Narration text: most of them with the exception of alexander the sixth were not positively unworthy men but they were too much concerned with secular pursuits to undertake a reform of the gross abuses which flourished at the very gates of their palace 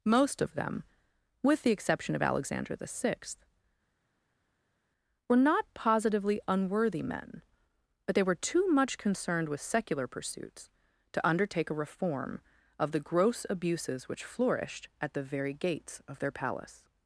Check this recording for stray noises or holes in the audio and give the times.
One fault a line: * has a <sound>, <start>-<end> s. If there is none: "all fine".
all fine